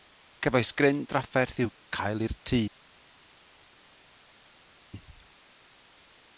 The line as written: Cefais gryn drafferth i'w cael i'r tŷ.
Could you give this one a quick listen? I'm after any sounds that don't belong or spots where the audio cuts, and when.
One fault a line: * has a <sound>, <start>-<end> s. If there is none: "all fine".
all fine